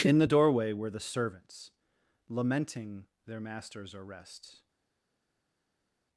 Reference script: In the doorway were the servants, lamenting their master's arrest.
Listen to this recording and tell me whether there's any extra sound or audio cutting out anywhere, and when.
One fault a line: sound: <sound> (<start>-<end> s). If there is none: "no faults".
no faults